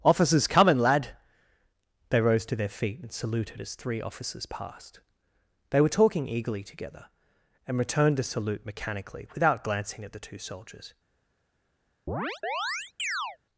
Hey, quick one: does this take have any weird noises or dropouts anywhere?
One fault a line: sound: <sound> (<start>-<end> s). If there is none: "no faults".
sound: chirp (12.1-13.4 s)